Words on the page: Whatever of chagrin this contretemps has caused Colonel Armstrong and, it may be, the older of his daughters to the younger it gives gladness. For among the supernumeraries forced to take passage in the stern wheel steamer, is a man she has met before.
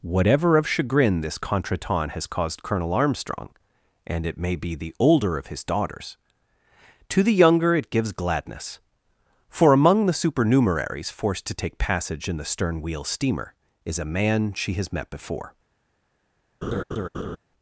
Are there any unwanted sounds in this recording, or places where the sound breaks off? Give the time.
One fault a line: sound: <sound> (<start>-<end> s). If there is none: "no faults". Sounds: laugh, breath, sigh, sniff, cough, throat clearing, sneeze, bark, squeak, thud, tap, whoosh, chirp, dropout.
sound: laugh (16.6-17.4 s)